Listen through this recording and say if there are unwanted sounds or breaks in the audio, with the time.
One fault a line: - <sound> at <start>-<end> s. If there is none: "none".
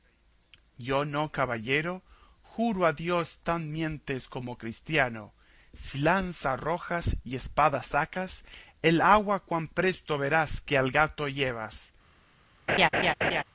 - laugh at 12.7-13.4 s